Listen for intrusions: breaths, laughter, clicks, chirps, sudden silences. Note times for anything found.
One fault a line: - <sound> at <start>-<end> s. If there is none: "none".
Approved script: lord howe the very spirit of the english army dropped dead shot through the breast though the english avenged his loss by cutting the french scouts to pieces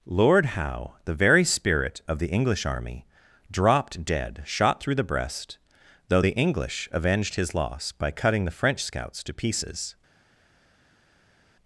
none